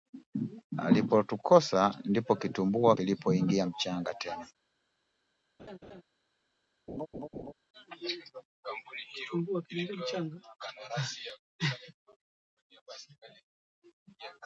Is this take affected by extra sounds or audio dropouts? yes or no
yes